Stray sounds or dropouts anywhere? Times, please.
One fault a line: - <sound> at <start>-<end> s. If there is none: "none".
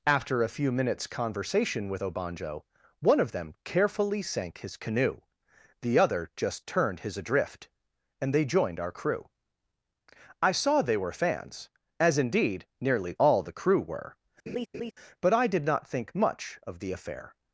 - laugh at 14.5-14.9 s